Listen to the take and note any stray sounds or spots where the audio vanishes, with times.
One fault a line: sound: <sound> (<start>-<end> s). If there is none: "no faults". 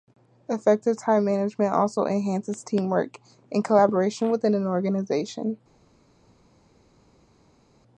no faults